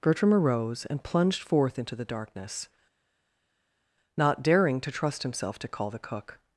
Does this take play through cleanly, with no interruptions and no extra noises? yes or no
yes